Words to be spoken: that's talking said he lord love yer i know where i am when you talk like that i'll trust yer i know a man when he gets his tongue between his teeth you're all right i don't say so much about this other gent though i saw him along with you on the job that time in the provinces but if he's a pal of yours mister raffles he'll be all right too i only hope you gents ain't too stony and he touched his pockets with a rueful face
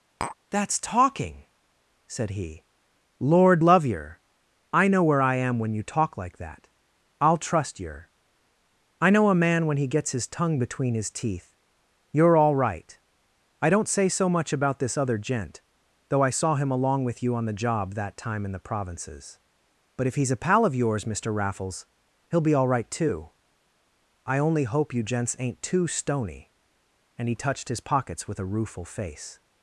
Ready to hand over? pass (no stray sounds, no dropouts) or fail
fail